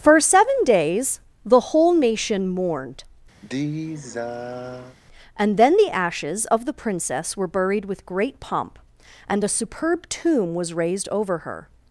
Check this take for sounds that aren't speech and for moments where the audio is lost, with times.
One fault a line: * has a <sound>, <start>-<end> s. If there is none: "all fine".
* has a sigh, 3.4-5.0 s